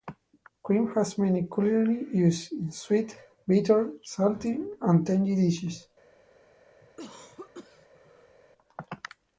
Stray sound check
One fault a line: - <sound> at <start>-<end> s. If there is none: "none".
- cough at 6.8-8.4 s